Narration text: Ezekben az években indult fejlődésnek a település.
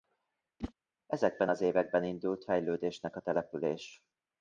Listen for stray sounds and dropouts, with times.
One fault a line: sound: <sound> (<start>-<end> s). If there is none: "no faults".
sound: whoosh (0.6-0.7 s)